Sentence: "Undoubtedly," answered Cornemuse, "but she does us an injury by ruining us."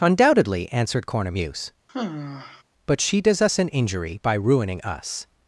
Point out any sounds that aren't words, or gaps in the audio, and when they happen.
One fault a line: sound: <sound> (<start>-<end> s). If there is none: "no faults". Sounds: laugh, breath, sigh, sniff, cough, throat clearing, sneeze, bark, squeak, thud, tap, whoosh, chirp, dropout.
sound: sigh (1.9-2.6 s)